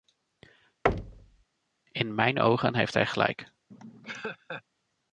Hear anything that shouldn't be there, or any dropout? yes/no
yes